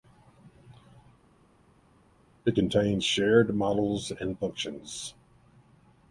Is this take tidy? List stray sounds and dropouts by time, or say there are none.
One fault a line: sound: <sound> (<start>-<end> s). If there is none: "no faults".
no faults